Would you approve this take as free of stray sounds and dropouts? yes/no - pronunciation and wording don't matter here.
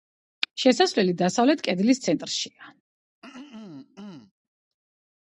no